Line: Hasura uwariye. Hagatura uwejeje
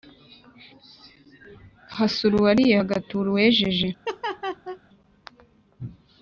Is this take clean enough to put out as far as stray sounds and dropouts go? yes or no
no